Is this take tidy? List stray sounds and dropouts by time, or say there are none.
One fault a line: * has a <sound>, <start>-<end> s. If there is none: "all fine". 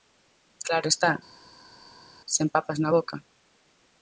all fine